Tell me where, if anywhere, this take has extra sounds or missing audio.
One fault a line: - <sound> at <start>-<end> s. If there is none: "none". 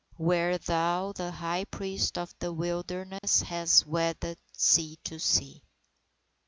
- dropout at 3.2-3.2 s